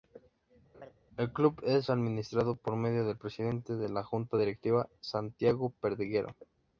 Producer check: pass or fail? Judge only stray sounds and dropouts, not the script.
fail